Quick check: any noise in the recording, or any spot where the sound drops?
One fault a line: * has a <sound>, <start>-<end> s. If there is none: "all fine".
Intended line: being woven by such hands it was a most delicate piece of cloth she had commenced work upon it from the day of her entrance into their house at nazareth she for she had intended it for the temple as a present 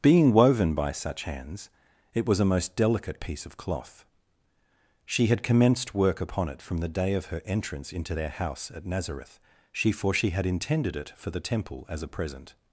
all fine